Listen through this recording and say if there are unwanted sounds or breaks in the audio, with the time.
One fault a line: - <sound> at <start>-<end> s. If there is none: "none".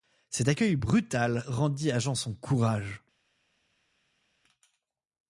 none